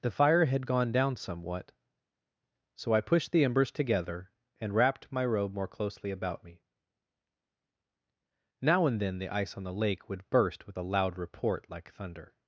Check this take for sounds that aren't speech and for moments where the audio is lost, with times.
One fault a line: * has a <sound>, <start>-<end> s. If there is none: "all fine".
all fine